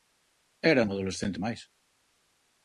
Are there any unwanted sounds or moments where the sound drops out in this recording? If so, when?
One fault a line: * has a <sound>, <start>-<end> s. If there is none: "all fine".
all fine